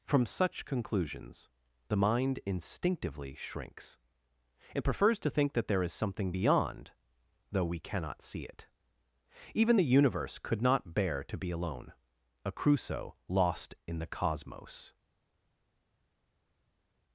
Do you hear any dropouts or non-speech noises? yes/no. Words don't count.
no